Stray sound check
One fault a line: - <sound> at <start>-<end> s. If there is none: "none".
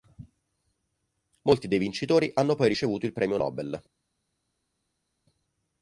none